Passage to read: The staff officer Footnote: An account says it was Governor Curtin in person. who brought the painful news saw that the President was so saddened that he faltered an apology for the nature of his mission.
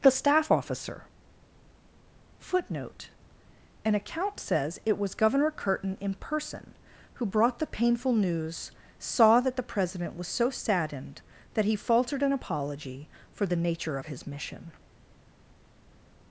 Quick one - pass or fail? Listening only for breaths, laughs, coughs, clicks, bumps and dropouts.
pass